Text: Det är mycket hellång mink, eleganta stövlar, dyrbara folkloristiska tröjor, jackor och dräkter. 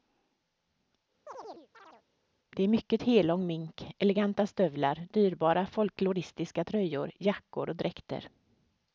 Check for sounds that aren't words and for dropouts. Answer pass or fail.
fail